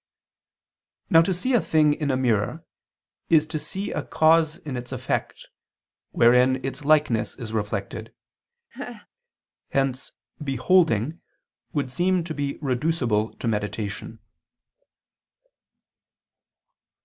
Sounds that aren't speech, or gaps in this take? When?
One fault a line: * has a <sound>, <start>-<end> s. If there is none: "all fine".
* has a laugh, 8.7-9.1 s